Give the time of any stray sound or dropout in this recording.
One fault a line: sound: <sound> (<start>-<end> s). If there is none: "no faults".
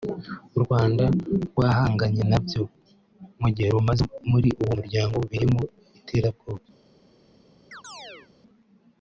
sound: chirp (7.7-8.3 s)